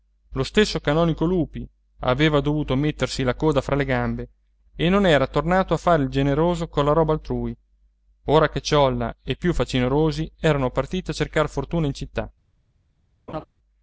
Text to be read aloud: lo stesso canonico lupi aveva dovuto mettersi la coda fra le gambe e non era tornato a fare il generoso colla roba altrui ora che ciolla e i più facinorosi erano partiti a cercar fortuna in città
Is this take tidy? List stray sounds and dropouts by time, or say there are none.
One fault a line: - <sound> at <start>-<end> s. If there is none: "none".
- laugh at 13.3-13.5 s